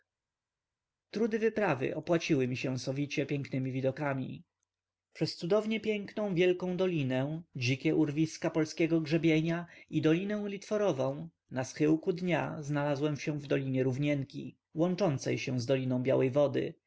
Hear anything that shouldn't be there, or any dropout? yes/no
no